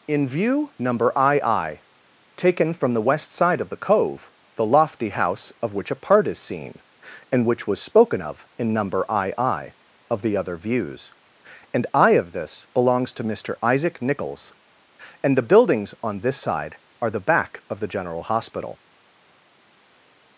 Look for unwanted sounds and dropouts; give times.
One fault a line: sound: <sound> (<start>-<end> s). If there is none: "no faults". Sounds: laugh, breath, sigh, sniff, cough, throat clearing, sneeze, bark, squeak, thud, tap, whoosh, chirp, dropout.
no faults